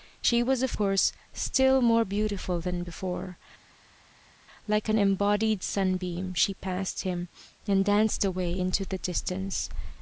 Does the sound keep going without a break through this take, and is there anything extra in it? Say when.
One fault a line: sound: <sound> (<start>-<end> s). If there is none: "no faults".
no faults